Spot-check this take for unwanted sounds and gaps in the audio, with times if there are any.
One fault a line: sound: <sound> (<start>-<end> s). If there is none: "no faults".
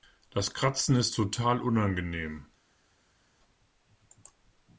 no faults